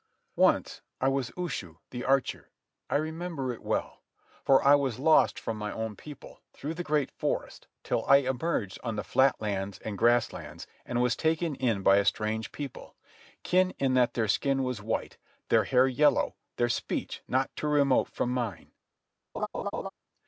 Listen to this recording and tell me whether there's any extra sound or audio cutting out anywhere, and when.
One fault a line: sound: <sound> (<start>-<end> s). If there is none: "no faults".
sound: laugh (19.3-19.9 s)